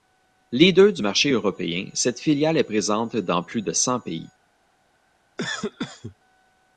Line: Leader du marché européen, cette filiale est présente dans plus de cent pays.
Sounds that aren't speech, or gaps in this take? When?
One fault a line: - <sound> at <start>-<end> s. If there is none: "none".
- cough at 5.4-6.2 s